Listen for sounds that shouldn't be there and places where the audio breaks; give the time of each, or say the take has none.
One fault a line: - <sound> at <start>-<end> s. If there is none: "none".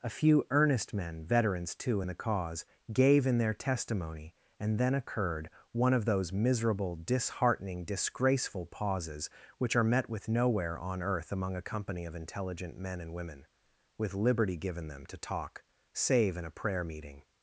none